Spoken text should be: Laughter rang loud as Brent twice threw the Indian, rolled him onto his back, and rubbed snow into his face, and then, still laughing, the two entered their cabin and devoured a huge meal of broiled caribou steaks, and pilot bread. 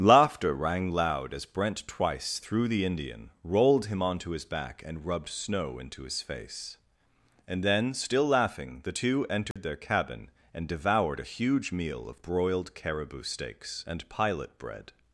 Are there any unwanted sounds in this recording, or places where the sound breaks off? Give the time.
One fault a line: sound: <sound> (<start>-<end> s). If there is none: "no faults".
sound: dropout (9.5-9.6 s)